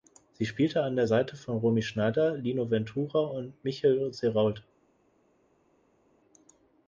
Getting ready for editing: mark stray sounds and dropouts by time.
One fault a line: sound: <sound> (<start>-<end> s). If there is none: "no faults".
no faults